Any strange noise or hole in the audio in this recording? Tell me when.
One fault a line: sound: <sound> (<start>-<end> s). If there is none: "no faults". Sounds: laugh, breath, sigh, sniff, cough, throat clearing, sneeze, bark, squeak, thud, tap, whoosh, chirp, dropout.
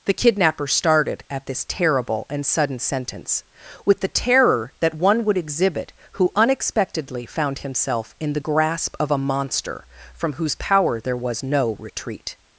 no faults